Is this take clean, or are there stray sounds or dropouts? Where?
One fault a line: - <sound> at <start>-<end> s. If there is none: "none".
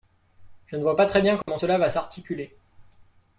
- dropout at 1.4-1.5 s